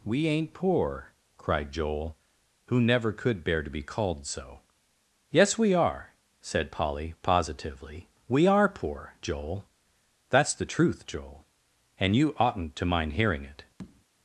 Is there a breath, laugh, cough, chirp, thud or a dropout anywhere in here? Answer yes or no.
yes